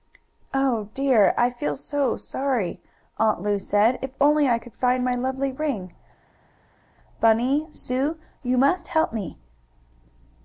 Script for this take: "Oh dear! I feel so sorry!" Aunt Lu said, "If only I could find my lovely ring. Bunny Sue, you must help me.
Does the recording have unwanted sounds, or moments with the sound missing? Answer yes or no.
no